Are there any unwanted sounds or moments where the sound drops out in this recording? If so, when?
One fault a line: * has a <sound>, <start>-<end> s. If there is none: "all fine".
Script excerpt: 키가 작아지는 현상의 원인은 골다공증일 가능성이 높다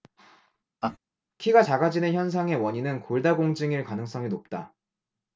* has a laugh, 0.8-1.0 s